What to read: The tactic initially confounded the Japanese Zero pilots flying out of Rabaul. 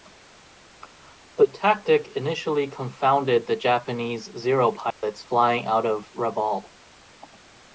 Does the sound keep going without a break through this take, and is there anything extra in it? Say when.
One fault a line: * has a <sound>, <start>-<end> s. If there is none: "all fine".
* has a dropout, 4.9-5.0 s